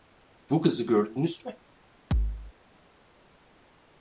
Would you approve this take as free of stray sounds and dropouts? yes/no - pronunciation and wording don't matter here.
no